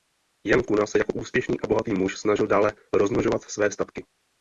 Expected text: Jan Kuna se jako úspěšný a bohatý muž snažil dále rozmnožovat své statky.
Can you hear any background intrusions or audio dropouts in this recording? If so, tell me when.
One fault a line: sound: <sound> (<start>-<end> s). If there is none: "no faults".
no faults